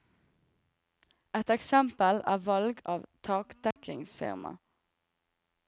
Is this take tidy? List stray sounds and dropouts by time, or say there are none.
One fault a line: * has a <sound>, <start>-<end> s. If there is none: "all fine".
* has a dropout, 3.7-3.8 s